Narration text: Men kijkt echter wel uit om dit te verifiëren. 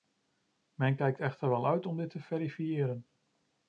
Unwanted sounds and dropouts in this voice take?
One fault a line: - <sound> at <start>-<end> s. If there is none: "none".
none